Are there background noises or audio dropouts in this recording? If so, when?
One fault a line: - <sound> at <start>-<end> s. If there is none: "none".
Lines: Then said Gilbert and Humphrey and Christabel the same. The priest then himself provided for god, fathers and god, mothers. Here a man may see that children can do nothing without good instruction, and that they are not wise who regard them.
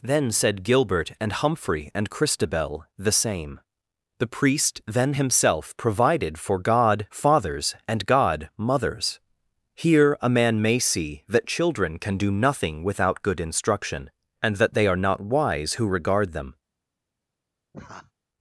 - laugh at 17.7-18.1 s